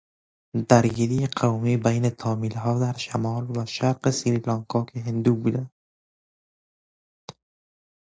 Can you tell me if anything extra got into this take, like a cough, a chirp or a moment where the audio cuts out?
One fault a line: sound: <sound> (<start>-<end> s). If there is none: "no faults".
no faults